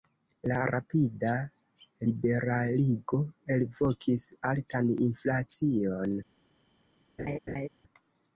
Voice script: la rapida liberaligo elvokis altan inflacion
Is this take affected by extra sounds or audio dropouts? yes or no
yes